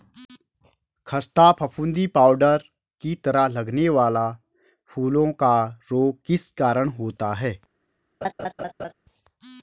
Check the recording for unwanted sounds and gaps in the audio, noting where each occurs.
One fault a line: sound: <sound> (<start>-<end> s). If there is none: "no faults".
sound: laugh (8.2-8.9 s)